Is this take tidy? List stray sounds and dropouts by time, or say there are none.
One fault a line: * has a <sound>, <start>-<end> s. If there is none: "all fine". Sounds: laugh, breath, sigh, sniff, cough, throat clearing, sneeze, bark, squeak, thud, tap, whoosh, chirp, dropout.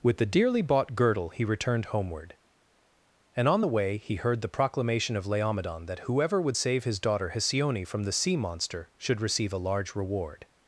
all fine